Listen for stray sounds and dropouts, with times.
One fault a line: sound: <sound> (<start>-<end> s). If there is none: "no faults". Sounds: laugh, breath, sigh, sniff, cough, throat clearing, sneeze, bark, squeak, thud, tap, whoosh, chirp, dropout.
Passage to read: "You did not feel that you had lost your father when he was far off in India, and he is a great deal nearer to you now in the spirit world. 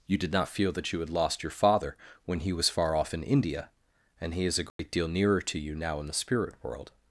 sound: dropout (4.7-4.8 s)